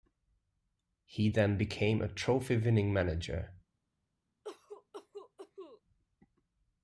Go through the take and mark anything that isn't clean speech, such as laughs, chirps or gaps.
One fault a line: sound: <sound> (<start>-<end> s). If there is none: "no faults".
sound: cough (4.4-5.8 s)